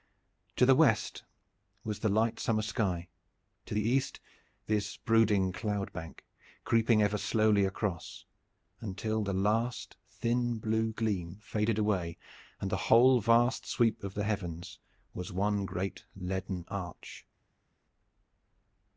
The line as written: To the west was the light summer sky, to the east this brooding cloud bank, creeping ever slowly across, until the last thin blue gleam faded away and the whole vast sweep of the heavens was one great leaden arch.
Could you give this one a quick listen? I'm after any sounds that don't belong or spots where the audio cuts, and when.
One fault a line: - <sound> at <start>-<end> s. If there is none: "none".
none